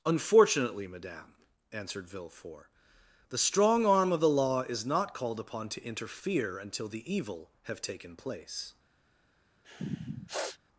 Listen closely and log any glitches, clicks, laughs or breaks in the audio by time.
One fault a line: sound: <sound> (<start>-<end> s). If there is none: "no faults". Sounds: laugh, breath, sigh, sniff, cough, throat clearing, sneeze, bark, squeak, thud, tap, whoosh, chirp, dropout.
sound: sniff (9.6-10.6 s)